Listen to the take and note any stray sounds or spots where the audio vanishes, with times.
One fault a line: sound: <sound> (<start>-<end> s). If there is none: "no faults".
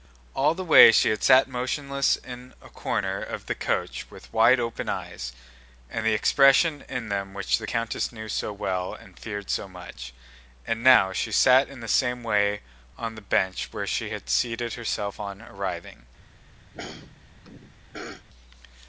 sound: throat clearing (16.7-18.3 s)